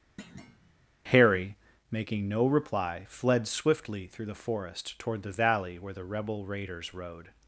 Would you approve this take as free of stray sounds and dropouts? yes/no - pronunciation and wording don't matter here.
no